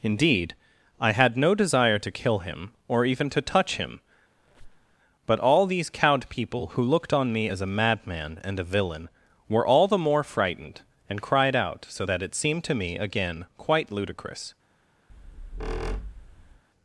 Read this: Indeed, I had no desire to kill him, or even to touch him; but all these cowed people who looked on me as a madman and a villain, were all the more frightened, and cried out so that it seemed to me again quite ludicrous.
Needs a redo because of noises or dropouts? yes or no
yes